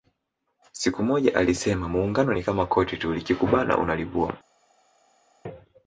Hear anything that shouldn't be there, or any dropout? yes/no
no